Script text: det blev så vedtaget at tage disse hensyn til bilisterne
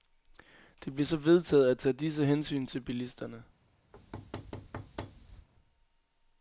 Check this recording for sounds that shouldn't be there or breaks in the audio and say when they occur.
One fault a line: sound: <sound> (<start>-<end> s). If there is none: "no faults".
sound: thud (3.9-5.5 s)